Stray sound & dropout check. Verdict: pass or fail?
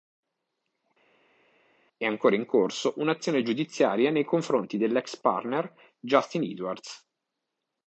pass